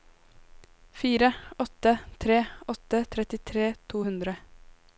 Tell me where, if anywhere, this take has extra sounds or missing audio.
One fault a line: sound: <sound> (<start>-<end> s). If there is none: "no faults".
no faults